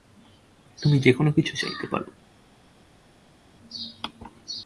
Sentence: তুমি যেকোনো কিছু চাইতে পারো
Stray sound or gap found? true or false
false